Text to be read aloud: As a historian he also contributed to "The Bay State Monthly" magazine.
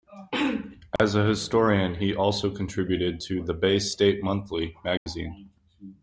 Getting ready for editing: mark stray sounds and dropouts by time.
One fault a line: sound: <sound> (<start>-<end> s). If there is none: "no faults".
sound: dropout (1.0-1.0 s)
sound: dropout (5.0-5.1 s)